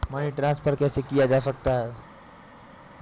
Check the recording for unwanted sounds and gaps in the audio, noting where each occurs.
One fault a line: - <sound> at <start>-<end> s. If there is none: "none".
none